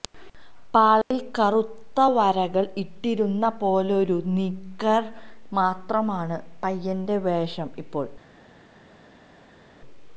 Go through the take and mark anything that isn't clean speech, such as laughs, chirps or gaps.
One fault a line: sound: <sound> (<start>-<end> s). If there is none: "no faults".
no faults